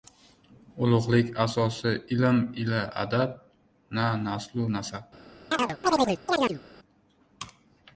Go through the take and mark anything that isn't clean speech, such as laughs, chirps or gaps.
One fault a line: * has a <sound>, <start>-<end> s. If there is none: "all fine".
* has a chirp, 5.5-6.6 s